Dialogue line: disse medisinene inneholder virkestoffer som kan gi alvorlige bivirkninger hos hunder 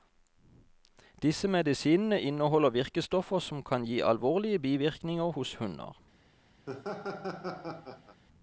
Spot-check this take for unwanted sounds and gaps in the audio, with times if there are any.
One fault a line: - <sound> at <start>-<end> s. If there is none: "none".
- laugh at 6.7-8.2 s